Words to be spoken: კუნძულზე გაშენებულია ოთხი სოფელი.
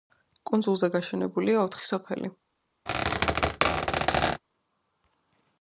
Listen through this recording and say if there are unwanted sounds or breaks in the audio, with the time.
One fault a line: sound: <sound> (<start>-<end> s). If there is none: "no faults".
sound: squeak (2.9-4.4 s)